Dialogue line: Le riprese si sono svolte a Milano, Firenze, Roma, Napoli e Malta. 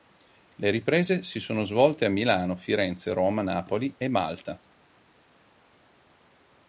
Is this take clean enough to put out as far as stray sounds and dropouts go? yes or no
yes